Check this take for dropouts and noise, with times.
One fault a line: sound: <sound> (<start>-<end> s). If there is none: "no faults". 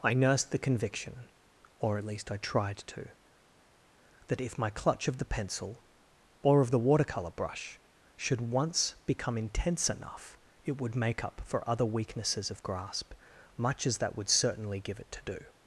no faults